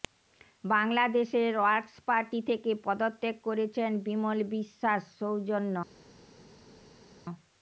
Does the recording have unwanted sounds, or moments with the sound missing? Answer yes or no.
no